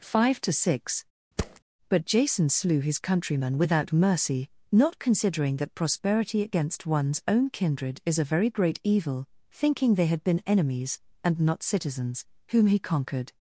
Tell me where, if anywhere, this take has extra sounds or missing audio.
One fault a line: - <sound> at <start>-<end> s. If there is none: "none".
- thud at 1.4-1.6 s